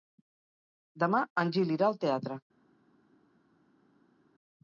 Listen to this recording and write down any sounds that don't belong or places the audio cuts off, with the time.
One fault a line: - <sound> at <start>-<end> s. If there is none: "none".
none